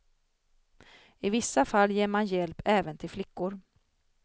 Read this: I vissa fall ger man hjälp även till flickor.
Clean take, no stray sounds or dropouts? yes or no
yes